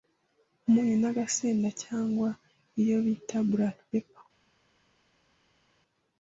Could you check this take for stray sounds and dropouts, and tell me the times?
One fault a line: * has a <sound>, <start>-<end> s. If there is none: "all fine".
all fine